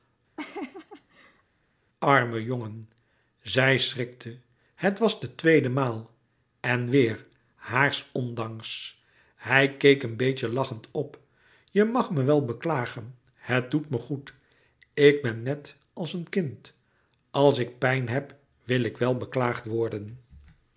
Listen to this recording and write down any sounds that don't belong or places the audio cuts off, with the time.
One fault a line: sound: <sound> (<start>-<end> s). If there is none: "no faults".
sound: laugh (0.4-1.4 s)